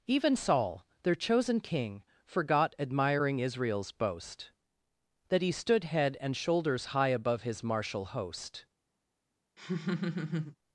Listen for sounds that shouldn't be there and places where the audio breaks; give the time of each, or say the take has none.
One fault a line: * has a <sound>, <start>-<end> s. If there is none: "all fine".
* has a laugh, 9.6-10.6 s